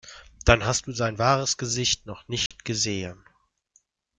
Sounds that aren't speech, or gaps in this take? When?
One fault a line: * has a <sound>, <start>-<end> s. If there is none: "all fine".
* has a dropout, 2.5-2.5 s